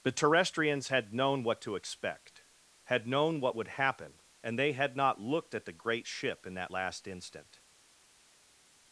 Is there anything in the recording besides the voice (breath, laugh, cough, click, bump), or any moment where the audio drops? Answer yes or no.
no